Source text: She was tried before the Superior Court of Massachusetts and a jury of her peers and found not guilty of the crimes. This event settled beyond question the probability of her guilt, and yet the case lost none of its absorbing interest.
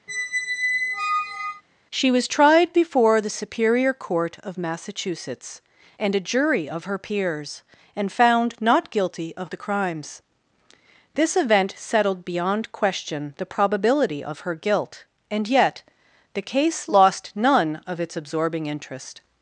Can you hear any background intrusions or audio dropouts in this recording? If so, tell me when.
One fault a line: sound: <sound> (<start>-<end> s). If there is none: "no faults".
sound: squeak (0.1-1.6 s)